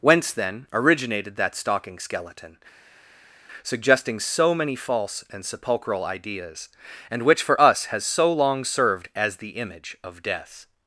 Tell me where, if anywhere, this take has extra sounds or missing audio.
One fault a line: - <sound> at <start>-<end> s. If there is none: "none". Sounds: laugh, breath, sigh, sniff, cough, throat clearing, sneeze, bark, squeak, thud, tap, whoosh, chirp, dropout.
none